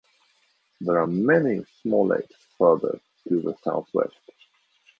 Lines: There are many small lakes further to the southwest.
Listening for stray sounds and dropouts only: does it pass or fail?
pass